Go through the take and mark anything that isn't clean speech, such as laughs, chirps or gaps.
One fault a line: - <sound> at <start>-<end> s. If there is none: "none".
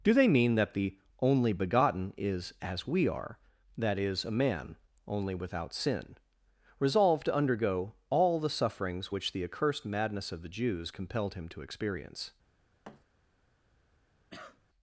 - thud at 12.8-13.0 s
- cough at 14.3-14.6 s